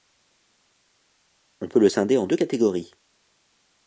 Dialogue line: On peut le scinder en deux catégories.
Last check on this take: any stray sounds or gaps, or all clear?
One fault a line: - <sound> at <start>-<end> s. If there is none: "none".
none